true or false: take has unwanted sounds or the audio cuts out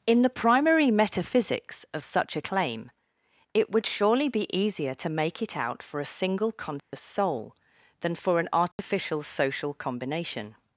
true